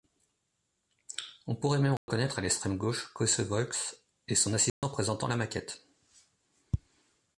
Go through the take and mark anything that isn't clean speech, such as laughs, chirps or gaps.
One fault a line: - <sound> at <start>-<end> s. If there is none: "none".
- dropout at 2.0-2.1 s
- dropout at 4.7-4.8 s